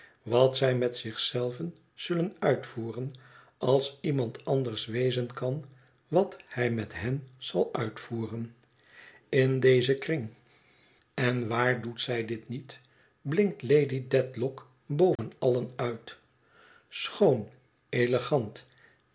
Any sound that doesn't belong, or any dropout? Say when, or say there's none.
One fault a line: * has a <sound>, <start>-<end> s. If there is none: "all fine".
* has a dropout, 15.2-15.2 s